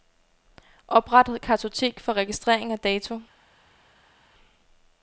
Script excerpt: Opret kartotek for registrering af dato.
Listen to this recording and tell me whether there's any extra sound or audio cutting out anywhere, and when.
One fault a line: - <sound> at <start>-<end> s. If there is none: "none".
none